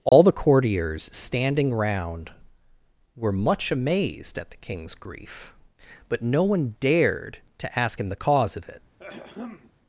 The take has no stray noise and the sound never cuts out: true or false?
false